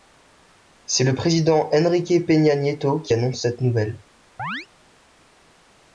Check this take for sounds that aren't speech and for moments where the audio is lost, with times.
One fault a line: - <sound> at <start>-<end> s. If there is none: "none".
- chirp at 4.4-4.7 s